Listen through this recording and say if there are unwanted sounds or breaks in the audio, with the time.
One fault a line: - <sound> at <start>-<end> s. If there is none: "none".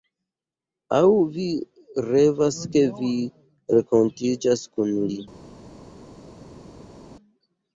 none